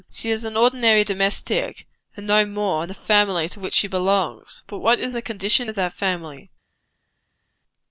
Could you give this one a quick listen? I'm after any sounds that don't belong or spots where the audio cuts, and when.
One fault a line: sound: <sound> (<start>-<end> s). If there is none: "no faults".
no faults